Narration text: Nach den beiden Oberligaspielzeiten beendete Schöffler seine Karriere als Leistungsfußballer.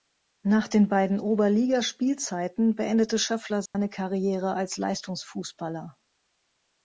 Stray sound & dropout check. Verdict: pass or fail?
fail